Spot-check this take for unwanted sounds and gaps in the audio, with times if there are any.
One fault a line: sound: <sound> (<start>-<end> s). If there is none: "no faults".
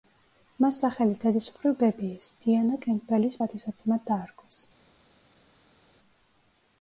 no faults